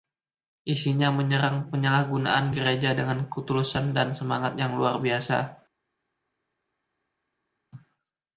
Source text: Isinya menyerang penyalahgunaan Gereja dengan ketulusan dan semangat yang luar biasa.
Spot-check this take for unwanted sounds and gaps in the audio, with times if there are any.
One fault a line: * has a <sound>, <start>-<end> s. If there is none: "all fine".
all fine